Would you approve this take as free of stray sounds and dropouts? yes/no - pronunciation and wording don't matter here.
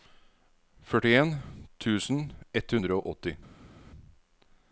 yes